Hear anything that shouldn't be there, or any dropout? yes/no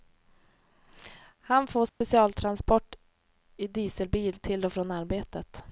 yes